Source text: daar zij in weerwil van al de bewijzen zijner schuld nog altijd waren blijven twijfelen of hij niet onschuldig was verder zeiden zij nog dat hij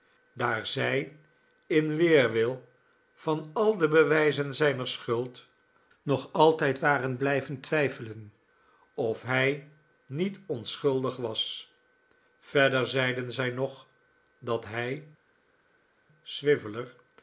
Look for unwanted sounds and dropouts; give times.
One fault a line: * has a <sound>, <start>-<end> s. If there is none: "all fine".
all fine